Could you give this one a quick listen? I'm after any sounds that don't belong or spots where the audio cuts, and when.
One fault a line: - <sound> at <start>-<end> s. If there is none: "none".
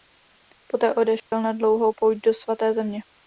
- dropout at 1.2-1.3 s